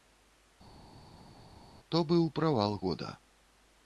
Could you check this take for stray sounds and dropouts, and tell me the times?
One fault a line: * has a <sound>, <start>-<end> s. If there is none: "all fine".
all fine